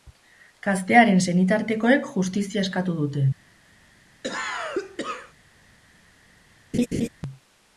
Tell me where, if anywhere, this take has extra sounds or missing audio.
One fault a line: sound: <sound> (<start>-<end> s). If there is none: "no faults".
sound: cough (4.2-5.3 s)
sound: laugh (6.7-7.1 s)